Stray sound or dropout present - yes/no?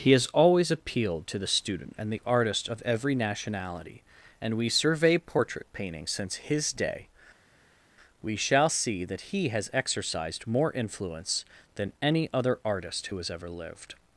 no